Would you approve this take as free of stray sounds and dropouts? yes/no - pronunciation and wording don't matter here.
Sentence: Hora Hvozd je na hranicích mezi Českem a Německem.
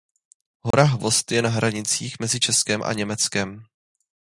no